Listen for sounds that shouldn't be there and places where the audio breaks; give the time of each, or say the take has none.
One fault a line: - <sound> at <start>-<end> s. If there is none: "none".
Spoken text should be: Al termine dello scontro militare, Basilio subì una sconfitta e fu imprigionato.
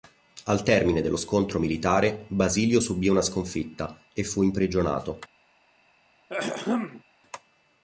- throat clearing at 6.3-7.0 s